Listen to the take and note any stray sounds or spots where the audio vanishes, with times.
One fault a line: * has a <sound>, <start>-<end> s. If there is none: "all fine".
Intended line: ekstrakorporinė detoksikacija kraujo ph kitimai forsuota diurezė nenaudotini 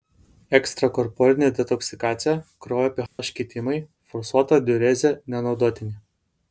* has a dropout, 3.1-3.2 s